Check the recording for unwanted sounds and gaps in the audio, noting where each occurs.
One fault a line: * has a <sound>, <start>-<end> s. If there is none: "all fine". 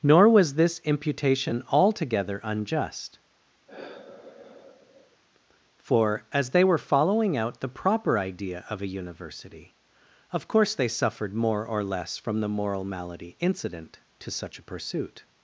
* has a sigh, 3.7-5.2 s